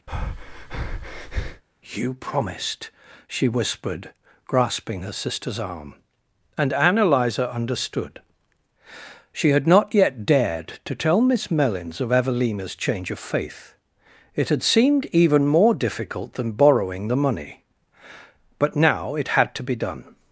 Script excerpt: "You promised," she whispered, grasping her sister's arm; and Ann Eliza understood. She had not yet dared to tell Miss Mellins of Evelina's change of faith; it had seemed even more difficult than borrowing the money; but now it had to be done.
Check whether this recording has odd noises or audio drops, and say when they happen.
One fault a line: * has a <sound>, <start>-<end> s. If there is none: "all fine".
* has a breath, 0.1-1.6 s